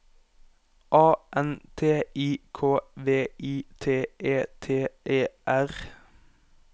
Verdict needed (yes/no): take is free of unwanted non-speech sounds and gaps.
yes